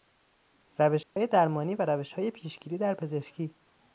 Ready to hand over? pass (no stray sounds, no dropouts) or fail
fail